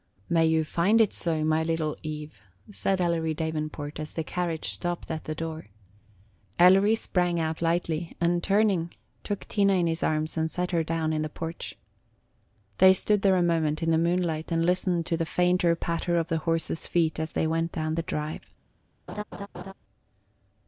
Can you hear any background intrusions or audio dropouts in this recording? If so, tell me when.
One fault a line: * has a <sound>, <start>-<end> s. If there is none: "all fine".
* has a laugh, 19.1-19.7 s